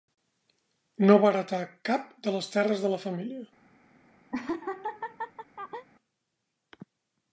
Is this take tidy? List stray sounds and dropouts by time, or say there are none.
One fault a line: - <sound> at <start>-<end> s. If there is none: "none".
- laugh at 4.3-5.9 s